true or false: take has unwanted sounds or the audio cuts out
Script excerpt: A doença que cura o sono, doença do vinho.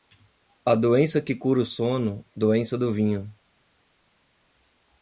false